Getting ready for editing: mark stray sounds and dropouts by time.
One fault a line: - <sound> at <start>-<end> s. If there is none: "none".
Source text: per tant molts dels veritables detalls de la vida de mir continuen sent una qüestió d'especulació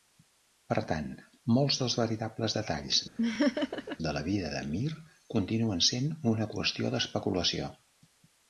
- laugh at 3.2-4.0 s